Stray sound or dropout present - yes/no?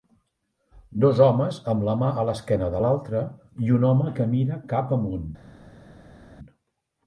no